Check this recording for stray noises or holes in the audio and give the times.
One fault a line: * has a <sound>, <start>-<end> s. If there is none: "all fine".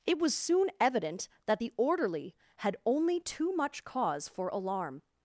all fine